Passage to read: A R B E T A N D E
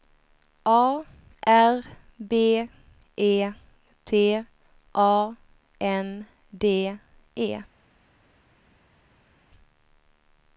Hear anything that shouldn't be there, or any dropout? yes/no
no